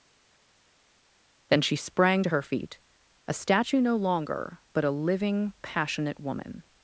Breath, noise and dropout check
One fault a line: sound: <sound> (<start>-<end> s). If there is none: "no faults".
no faults